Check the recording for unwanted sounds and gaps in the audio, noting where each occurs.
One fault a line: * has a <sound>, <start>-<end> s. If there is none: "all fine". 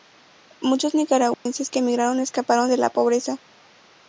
* has a dropout, 1.3-1.5 s